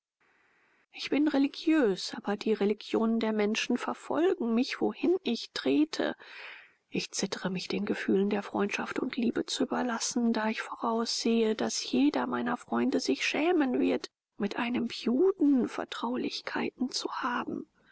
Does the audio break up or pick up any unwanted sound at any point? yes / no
no